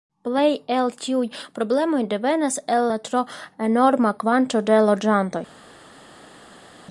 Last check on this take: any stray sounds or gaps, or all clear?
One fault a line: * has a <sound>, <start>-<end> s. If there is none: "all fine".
all fine